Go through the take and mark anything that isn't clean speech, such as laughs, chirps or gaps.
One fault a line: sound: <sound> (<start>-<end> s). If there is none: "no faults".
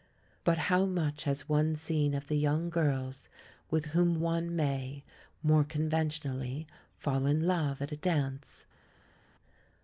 no faults